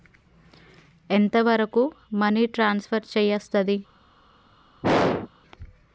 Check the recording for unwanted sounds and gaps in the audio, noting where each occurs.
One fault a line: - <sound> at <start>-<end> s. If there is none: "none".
- throat clearing at 4.8-5.3 s